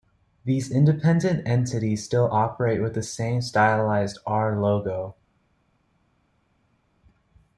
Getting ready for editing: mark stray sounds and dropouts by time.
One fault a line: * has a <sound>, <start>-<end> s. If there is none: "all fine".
all fine